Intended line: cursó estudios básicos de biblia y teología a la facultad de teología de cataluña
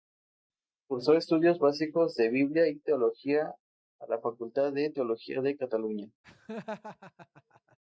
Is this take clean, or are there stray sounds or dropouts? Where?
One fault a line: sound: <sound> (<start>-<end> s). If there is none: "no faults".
sound: laugh (6.2-7.8 s)